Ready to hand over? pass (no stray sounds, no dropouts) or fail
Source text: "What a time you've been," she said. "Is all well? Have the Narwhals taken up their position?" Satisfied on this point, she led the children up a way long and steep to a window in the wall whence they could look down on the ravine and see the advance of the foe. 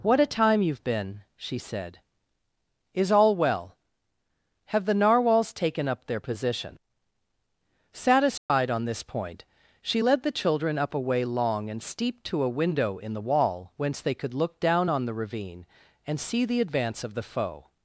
fail